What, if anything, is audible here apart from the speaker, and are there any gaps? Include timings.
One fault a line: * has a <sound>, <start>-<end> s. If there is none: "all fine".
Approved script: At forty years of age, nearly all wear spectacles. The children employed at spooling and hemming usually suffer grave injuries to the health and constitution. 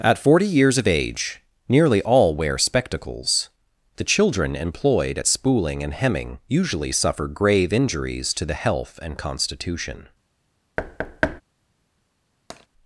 * has a thud, 10.8-11.4 s
* has a tap, 12.5-12.7 s